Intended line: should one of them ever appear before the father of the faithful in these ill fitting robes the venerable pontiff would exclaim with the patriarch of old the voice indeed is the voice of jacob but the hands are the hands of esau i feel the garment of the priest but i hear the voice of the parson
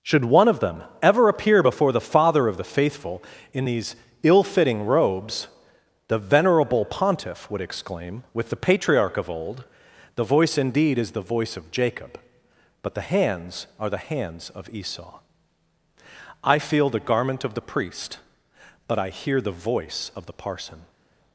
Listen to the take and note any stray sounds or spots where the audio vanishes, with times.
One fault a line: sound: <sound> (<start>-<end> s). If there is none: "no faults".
no faults